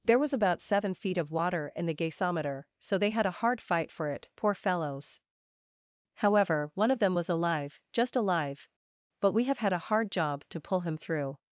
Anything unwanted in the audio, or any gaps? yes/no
no